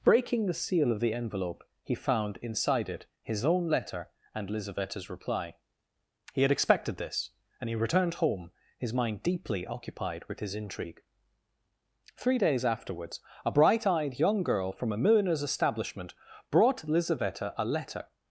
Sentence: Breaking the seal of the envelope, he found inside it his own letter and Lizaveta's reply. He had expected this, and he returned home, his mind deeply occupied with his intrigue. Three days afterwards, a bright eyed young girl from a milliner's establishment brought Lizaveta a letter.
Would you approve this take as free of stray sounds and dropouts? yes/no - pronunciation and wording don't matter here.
yes